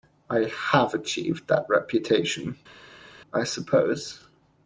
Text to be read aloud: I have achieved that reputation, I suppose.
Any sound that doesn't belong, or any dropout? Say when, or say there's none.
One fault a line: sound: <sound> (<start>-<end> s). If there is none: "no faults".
no faults